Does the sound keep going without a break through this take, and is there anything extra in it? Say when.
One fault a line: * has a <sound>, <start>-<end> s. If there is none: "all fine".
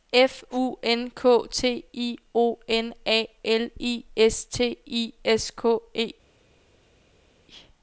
all fine